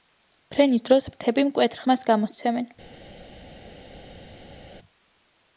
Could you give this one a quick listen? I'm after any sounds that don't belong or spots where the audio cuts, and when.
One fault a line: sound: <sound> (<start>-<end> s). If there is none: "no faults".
no faults